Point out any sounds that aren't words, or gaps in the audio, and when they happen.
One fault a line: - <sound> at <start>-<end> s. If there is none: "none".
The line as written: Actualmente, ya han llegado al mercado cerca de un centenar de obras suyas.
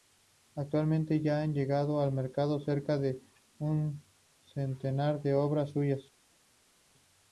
none